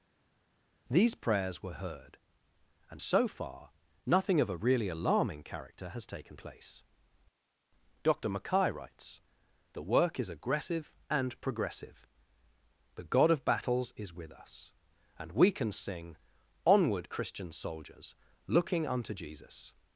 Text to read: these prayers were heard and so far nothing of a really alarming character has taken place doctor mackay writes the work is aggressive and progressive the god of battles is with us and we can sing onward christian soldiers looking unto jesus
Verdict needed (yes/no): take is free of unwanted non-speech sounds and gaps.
yes